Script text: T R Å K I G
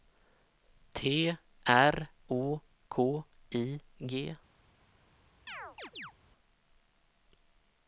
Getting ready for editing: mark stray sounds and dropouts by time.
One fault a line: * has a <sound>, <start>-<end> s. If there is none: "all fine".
* has a chirp, 5.5-6.1 s